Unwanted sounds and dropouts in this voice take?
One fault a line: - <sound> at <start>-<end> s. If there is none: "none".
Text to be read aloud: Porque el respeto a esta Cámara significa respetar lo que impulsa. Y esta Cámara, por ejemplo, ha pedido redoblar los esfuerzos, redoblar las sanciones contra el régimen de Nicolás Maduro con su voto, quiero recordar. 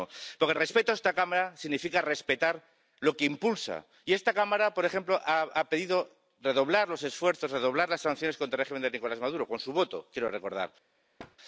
- thud at 11.2-11.4 s